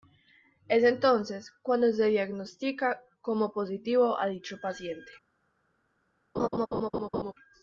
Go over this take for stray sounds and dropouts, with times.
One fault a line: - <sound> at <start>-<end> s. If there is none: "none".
- laugh at 6.4-7.3 s